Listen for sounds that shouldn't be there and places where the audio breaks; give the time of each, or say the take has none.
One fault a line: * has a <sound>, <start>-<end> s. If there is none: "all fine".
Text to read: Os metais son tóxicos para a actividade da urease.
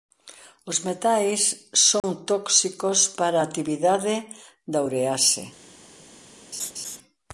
* has a dropout, 2.0-2.0 s
* has a laugh, 6.5-7.0 s